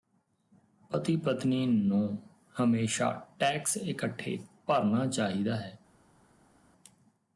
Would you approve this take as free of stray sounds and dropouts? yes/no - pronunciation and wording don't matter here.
yes